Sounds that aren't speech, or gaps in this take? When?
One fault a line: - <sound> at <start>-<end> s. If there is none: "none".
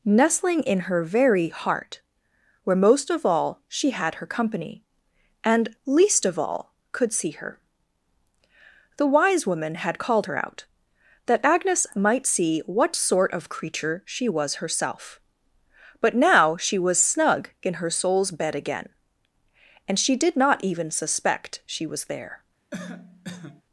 - cough at 22.7-23.6 s